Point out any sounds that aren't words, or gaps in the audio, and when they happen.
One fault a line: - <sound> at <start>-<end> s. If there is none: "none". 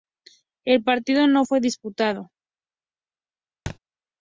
- thud at 3.7-3.8 s